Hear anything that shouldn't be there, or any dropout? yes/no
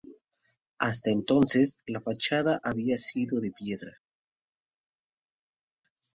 no